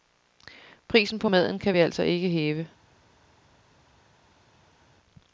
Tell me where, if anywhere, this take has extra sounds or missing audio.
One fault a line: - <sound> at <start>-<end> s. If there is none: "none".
none